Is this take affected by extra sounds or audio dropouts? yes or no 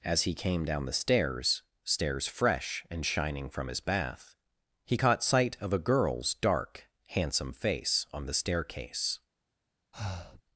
yes